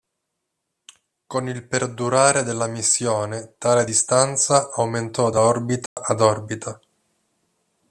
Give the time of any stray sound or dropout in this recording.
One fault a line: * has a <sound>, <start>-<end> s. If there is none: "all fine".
* has a dropout, 5.9-6.0 s